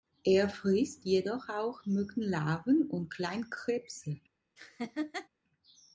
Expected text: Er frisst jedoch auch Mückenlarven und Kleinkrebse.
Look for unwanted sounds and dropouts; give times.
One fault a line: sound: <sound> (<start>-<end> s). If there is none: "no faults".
sound: laugh (4.6-5.3 s)